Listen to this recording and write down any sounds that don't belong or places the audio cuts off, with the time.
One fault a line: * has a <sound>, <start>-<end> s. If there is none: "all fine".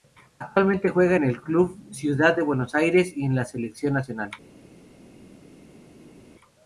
all fine